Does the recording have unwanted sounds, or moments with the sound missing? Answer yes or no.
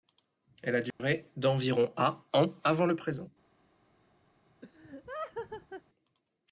yes